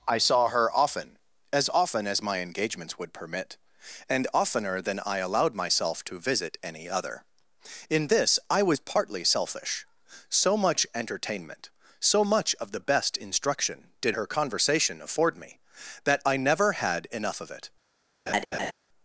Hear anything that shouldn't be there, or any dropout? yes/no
yes